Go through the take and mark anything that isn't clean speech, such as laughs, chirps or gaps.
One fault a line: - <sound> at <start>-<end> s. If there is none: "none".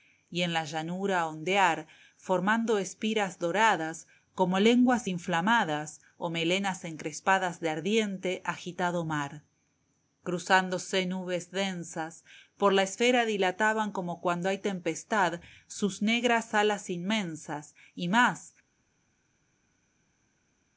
none